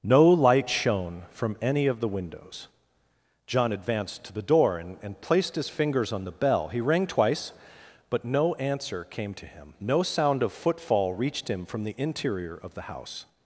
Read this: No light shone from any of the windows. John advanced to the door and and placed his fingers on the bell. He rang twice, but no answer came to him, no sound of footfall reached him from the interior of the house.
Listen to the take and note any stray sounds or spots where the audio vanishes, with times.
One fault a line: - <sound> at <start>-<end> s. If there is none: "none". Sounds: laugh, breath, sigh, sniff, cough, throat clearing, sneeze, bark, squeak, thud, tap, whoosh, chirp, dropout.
none